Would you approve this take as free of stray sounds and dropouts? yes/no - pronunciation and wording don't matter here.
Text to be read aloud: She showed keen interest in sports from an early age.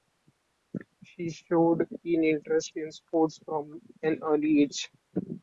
yes